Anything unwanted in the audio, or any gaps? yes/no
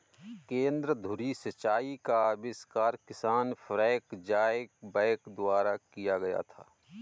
no